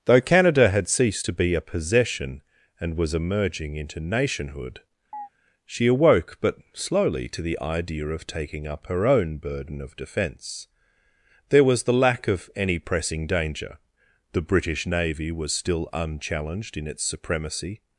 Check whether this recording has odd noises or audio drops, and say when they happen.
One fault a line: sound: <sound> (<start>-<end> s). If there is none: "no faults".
sound: chirp (5.1-5.3 s)